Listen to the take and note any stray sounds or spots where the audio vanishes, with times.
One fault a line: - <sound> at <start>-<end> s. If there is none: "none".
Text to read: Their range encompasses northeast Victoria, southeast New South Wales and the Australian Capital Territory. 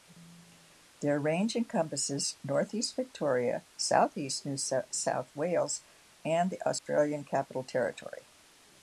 - dropout at 6.8-6.9 s